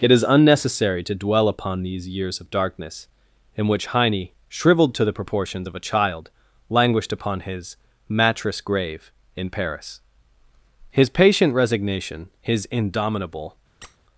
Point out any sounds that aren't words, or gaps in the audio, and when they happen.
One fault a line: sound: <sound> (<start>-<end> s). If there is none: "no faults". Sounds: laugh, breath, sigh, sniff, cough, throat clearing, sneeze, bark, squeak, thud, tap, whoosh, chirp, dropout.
sound: squeak (13.8-14.0 s)